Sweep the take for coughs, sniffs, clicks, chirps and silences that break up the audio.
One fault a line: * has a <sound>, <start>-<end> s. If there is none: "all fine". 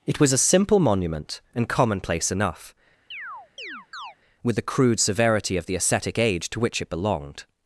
* has a chirp, 3.1-4.2 s